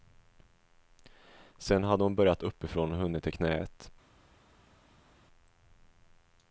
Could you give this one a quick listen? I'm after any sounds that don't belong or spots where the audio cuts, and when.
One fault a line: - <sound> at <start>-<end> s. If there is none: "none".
none